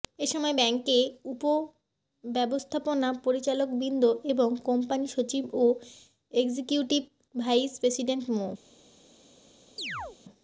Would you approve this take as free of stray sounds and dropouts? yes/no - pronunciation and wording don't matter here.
no